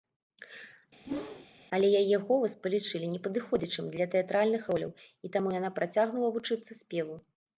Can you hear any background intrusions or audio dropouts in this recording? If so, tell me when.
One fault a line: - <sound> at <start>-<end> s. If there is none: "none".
- whoosh at 1.0-1.5 s